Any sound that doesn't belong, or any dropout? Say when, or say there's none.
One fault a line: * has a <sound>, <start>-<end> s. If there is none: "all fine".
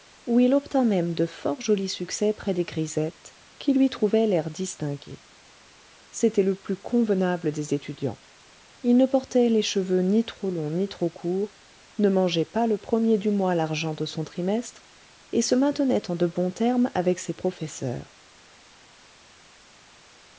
all fine